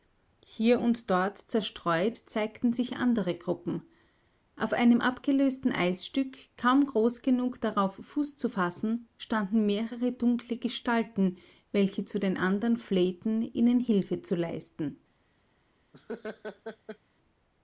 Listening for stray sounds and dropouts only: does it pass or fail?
fail